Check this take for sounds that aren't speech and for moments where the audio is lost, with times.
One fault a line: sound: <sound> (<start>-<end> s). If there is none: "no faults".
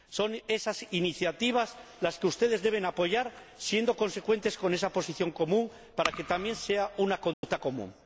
sound: dropout (7.3-7.4 s)